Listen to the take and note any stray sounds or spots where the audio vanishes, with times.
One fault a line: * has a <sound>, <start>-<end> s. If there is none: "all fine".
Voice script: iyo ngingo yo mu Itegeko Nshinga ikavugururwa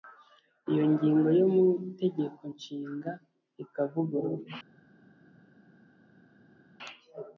all fine